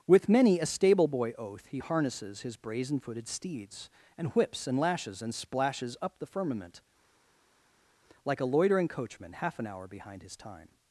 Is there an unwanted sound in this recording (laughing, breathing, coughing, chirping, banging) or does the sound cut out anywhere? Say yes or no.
no